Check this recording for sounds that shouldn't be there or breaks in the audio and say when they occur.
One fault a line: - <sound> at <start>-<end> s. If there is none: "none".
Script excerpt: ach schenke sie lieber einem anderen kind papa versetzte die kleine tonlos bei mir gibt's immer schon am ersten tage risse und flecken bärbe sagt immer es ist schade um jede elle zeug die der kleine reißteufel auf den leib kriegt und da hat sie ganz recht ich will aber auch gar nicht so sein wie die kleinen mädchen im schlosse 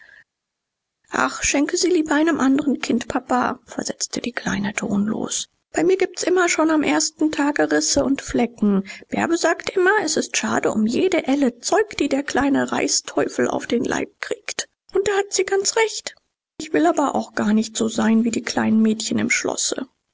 none